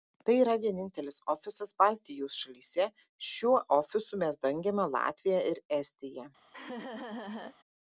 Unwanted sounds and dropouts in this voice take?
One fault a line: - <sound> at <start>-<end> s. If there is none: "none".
- laugh at 6.5-7.6 s